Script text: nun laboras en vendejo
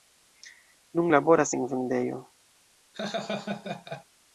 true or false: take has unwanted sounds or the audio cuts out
true